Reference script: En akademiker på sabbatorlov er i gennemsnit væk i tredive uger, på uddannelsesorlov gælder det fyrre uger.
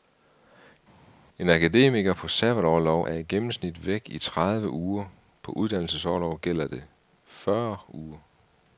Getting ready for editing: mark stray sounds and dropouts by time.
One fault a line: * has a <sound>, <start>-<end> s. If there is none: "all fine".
all fine